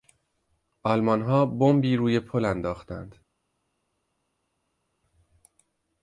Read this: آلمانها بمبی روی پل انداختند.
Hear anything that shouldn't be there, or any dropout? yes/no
no